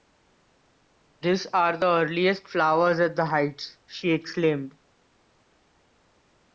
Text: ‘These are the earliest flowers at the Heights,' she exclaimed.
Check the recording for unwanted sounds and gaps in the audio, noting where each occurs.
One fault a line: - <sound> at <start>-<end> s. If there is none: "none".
none